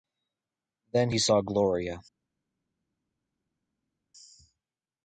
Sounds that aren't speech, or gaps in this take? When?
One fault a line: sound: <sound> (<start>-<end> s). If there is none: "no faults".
no faults